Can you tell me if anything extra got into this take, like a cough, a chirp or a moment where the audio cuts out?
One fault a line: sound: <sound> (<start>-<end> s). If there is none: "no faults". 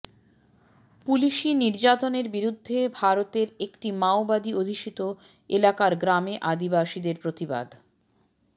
no faults